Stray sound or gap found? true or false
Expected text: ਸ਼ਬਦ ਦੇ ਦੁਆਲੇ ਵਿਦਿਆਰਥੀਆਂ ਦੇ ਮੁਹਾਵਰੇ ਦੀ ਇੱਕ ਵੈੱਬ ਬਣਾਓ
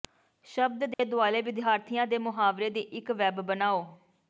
true